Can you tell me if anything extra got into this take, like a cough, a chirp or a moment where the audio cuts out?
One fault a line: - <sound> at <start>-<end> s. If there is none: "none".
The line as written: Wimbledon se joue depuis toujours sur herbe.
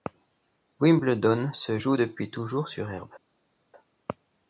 none